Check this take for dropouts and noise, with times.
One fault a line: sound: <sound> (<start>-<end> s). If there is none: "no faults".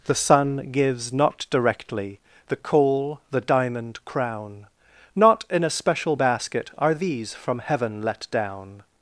no faults